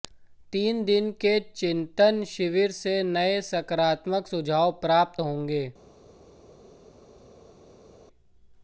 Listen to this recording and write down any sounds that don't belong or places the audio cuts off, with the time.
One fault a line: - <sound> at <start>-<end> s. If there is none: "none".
none